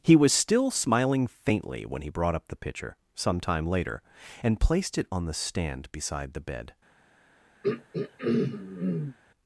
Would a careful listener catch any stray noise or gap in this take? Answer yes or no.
yes